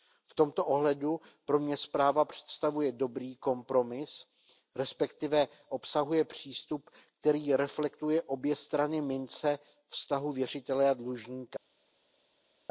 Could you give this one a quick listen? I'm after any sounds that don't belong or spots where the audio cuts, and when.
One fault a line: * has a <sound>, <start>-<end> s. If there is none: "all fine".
all fine